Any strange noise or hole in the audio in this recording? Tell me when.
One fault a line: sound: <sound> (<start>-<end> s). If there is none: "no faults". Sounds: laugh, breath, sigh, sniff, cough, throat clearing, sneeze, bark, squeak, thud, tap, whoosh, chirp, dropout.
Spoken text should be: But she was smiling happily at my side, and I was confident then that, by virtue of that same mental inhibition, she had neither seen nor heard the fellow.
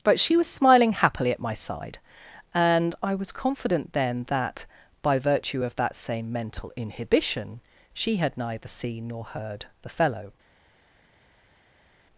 no faults